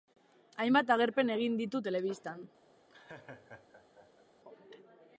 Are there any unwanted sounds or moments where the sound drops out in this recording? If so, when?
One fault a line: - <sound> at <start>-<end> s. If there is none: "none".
- laugh at 2.9-4.3 s